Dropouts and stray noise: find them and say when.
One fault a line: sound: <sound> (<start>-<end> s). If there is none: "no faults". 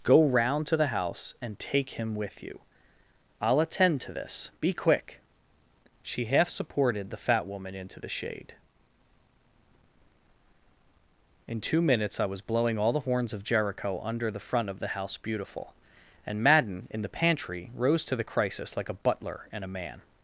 no faults